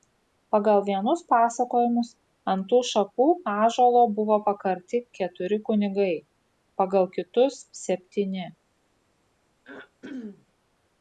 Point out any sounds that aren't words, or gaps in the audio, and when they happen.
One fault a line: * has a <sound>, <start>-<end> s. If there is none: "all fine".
* has a throat clearing, 9.6-10.5 s